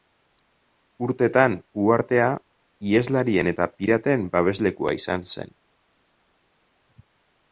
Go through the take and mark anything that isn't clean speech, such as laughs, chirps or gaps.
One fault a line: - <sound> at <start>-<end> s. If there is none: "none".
none